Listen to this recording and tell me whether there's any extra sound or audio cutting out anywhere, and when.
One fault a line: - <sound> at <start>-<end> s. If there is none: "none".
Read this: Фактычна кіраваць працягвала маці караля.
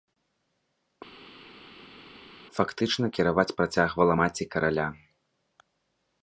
none